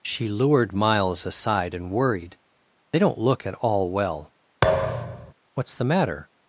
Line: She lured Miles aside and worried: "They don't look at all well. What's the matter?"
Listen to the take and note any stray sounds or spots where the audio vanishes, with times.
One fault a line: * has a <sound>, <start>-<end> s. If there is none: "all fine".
* has a thud, 4.6-5.3 s